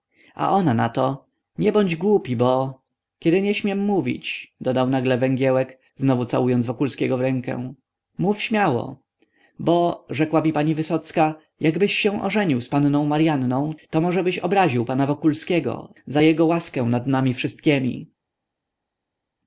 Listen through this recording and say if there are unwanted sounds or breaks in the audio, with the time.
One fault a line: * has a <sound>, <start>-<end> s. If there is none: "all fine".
all fine